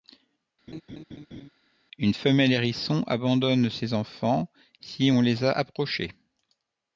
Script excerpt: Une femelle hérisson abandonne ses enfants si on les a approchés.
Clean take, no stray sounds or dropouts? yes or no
no